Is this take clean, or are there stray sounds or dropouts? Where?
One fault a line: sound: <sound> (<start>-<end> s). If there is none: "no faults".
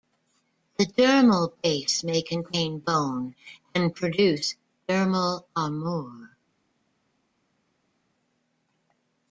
no faults